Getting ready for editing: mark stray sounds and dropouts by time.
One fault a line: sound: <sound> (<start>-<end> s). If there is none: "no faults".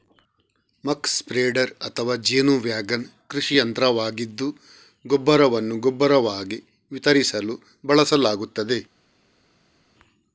no faults